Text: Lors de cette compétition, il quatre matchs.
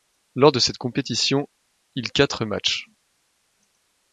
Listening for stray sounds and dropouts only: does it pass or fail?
pass